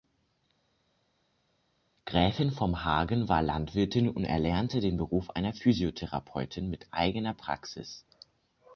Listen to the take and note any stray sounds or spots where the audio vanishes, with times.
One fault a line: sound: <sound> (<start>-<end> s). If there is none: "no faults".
no faults